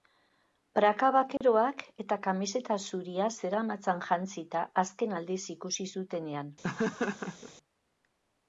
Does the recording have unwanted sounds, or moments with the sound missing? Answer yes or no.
yes